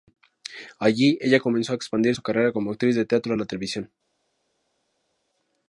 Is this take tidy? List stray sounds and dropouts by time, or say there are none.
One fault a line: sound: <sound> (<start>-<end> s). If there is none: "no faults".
no faults